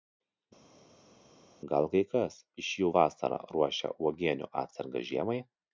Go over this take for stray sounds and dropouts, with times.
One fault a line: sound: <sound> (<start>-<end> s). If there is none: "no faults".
no faults